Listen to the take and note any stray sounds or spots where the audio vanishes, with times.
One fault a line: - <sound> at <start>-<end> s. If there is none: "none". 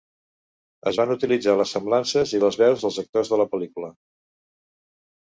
none